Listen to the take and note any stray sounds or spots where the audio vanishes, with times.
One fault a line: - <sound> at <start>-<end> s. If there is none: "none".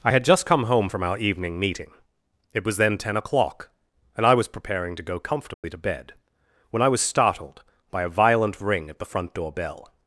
- dropout at 5.5-5.6 s